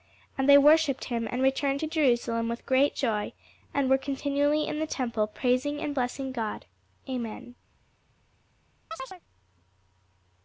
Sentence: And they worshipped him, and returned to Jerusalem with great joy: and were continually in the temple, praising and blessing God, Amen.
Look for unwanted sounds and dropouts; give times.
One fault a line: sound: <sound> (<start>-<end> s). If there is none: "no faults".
sound: chirp (8.9-9.2 s)